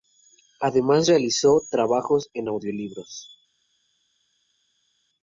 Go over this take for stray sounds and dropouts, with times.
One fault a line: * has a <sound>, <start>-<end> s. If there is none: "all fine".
all fine